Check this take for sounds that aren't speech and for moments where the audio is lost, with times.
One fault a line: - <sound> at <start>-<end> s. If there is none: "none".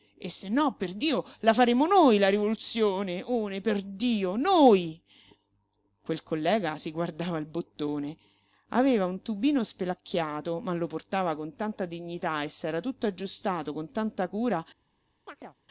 - chirp at 15.3-15.6 s